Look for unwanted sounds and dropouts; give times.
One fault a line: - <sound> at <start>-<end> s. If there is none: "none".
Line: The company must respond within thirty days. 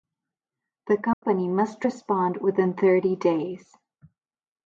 - dropout at 1.1-1.2 s